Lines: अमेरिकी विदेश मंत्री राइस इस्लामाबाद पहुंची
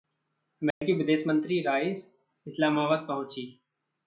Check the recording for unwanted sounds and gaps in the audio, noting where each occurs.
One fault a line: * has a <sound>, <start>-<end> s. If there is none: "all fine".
* has a dropout, 0.7-0.8 s